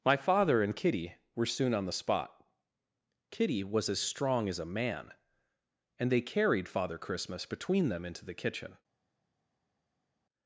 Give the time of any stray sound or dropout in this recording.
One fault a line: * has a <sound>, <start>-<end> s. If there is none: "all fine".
all fine